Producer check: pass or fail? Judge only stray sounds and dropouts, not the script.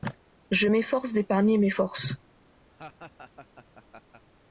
fail